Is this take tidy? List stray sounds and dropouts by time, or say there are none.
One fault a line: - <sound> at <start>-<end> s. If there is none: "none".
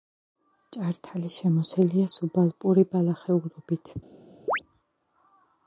- chirp at 4.5-4.6 s